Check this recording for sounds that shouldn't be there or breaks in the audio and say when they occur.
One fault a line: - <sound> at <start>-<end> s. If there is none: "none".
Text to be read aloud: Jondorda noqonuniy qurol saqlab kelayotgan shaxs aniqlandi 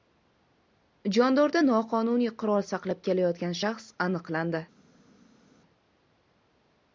none